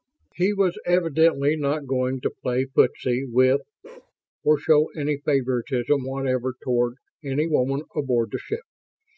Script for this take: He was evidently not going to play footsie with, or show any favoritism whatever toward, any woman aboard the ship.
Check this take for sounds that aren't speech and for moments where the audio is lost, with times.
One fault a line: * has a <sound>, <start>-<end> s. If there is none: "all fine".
* has a bark, 3.8-4.1 s